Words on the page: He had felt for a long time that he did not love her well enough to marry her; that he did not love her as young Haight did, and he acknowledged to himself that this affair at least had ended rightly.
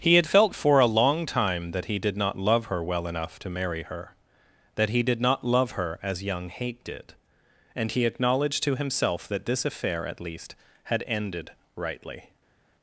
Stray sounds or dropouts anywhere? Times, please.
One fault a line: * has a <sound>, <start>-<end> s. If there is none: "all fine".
all fine